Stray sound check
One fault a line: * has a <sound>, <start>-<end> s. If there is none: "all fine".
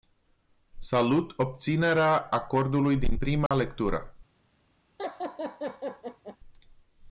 * has a dropout, 3.5-3.5 s
* has a laugh, 5.0-6.4 s